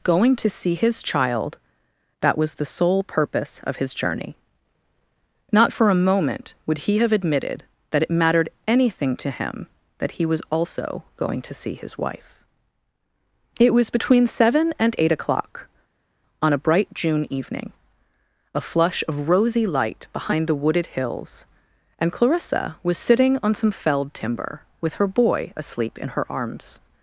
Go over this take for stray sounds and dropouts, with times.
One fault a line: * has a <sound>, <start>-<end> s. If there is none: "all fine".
all fine